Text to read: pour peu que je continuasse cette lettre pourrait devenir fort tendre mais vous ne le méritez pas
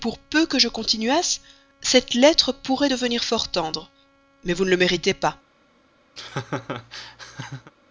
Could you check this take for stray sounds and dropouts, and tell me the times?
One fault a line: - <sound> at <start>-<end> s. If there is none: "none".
- laugh at 6.2-7.7 s